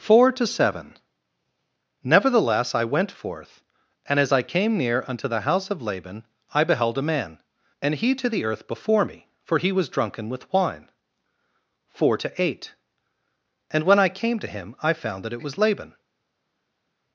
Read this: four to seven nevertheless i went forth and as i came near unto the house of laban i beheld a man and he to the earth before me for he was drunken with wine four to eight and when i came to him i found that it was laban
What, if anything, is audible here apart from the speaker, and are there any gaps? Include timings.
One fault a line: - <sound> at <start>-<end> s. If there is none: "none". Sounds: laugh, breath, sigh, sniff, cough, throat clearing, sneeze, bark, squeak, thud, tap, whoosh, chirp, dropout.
none